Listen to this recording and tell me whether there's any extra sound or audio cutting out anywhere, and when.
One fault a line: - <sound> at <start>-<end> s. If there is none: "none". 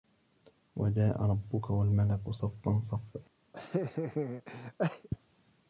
- laugh at 3.5-5.1 s